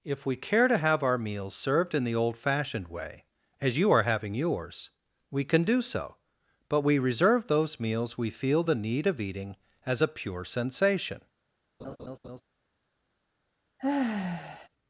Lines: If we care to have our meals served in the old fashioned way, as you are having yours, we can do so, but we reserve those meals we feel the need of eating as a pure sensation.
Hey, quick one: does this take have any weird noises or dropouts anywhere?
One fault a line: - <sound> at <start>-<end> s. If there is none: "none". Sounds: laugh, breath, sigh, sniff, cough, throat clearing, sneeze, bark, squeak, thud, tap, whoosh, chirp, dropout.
- laugh at 11.8-12.4 s
- sigh at 13.8-14.7 s